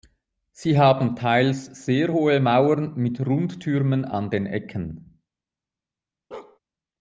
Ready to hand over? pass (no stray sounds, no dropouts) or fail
fail